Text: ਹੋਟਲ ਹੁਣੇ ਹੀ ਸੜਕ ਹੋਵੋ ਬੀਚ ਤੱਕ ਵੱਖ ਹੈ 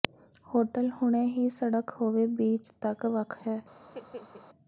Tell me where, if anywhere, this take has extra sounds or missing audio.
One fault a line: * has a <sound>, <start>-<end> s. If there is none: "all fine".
* has a laugh, 3.8-4.5 s